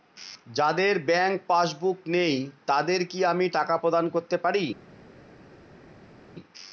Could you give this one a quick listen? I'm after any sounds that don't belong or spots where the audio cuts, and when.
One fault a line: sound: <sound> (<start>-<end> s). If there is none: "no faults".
no faults